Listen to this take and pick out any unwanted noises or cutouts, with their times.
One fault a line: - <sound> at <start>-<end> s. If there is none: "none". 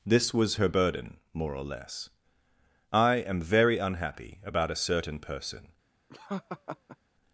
- laugh at 6.1-7.0 s